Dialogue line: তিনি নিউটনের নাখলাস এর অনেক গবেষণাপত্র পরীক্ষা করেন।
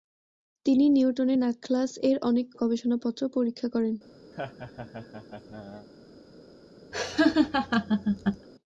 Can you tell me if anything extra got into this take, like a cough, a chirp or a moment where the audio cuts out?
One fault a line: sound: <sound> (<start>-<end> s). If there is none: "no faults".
sound: laugh (4.3-5.9 s)
sound: laugh (6.9-8.5 s)